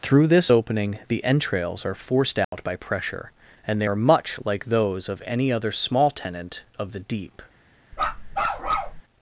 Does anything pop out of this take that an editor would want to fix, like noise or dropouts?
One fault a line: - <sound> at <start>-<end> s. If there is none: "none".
- dropout at 2.4-2.5 s
- bark at 7.9-9.0 s